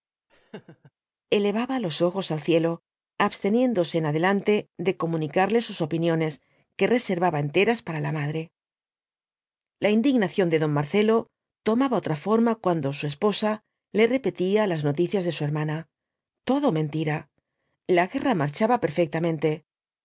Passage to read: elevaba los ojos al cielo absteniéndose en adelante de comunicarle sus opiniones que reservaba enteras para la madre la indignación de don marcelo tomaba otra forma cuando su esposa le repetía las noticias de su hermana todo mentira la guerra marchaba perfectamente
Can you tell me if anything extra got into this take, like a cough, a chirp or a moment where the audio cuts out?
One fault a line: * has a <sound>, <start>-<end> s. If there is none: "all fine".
* has a laugh, 0.3-0.9 s